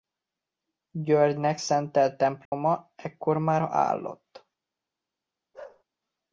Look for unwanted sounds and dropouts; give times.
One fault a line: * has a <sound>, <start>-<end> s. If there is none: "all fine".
* has a dropout, 2.5-2.5 s
* has a bark, 5.5-5.8 s